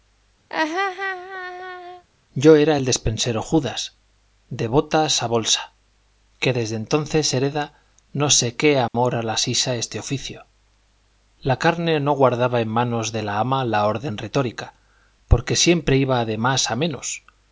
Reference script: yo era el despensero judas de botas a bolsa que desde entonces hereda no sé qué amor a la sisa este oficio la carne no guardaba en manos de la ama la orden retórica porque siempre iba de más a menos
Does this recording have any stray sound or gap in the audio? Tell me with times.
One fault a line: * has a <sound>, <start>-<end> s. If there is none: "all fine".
* has a laugh, 0.5-2.0 s
* has a dropout, 8.9-8.9 s